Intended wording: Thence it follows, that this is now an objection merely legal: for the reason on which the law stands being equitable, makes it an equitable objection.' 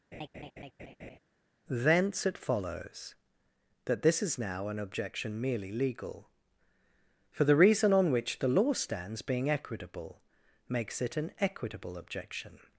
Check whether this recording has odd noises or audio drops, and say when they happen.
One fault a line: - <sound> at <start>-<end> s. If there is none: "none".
- laugh at 0.1-1.2 s